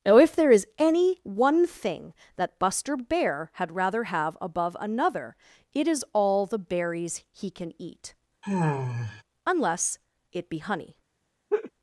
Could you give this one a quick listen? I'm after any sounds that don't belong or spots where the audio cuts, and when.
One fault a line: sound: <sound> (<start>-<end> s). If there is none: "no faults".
sound: sigh (8.4-9.2 s)
sound: laugh (11.5-11.7 s)